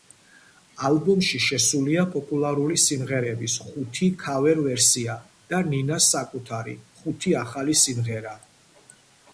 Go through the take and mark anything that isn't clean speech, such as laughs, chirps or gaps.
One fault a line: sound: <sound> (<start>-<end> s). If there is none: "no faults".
no faults